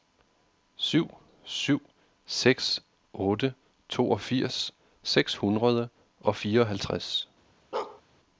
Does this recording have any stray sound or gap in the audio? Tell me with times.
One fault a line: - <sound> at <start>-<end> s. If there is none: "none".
- bark at 7.7-8.0 s